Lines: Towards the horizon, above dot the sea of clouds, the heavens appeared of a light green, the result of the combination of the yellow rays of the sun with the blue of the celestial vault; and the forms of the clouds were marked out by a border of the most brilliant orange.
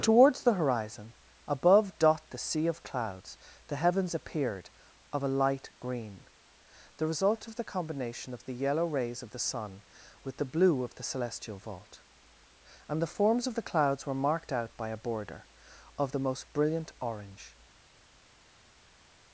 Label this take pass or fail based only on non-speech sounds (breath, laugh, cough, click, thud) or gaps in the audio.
pass